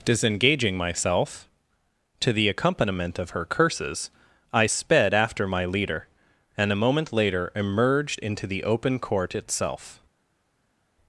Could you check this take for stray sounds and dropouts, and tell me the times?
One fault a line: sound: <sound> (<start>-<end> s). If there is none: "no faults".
no faults